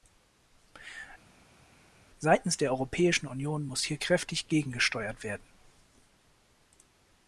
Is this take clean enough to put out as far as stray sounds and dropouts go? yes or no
yes